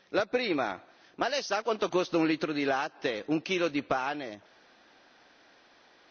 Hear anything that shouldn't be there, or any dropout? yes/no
no